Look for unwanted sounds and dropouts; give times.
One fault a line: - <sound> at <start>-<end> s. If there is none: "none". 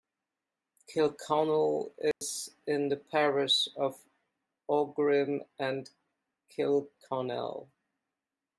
- dropout at 2.1-2.2 s